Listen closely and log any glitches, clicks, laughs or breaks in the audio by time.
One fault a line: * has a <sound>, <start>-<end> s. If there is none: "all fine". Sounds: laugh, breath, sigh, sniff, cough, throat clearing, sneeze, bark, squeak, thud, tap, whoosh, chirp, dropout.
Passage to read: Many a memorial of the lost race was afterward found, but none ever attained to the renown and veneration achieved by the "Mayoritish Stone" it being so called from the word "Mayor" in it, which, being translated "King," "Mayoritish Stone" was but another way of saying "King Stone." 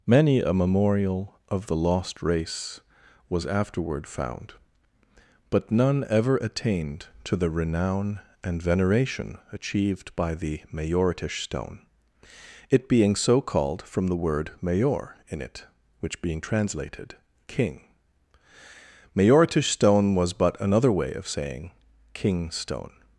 all fine